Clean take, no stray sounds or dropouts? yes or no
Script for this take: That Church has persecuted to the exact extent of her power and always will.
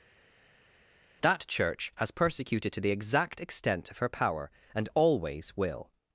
yes